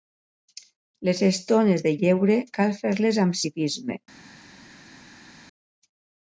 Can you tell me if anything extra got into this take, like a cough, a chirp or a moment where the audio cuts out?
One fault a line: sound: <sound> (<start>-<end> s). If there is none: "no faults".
no faults